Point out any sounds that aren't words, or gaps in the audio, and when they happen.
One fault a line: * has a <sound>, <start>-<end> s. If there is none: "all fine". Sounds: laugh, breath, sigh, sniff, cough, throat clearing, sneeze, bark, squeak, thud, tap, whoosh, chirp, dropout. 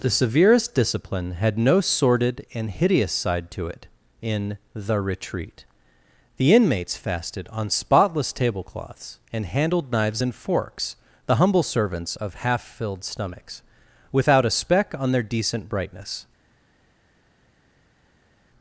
all fine